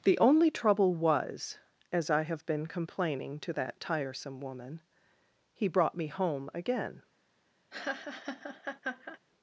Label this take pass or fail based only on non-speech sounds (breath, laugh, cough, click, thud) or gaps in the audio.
fail